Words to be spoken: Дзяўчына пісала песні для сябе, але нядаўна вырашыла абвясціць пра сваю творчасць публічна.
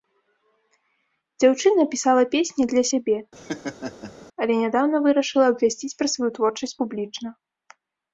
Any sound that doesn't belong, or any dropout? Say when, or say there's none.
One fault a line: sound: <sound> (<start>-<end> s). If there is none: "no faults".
sound: laugh (3.4-4.1 s)